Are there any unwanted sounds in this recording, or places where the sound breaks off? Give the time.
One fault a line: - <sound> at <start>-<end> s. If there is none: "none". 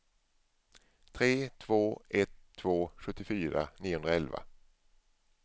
none